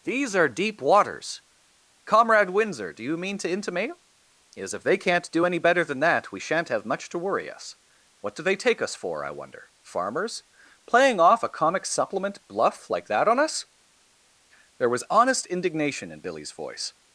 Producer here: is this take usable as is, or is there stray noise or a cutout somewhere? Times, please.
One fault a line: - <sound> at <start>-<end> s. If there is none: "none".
none